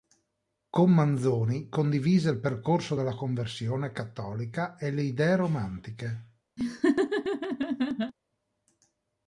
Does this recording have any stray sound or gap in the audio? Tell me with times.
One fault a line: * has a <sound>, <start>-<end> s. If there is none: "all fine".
* has a laugh, 6.6-8.1 s